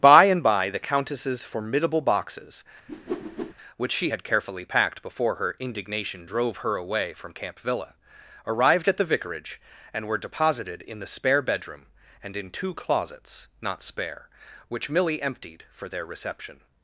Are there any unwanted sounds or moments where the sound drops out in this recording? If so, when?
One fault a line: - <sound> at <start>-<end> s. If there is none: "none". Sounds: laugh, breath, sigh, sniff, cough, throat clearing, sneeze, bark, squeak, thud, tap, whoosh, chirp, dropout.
- whoosh at 2.9-3.5 s